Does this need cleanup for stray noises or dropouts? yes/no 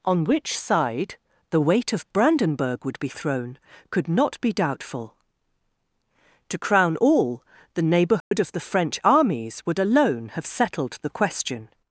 yes